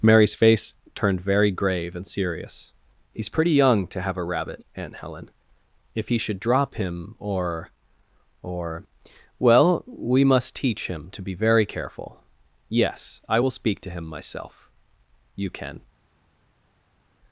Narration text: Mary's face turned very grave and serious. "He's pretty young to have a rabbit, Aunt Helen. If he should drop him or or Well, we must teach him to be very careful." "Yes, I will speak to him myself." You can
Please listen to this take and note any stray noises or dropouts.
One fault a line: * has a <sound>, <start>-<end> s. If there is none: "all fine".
all fine